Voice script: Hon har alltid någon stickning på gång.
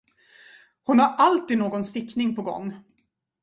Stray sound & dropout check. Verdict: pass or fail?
pass